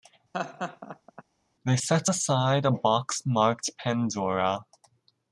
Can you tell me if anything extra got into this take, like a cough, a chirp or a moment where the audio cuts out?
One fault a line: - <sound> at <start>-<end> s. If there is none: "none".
- laugh at 0.3-1.2 s